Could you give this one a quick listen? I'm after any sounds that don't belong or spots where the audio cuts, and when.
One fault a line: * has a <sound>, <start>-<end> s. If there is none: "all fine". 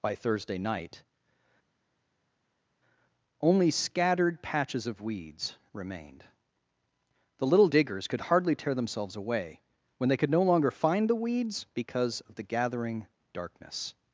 all fine